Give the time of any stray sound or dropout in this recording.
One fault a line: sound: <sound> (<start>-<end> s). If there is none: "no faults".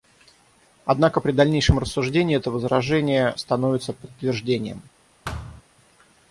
sound: thud (5.2-5.6 s)